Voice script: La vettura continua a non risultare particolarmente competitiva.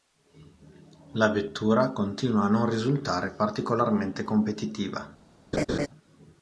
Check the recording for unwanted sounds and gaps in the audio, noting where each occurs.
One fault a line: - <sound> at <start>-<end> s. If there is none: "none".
- laugh at 5.5-5.9 s